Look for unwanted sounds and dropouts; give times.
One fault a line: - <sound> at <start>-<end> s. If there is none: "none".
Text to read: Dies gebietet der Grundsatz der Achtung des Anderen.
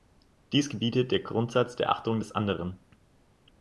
none